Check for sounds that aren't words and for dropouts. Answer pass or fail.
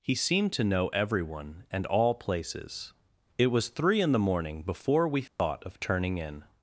fail